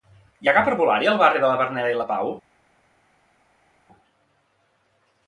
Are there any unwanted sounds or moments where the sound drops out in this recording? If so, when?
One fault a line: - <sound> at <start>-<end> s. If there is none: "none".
none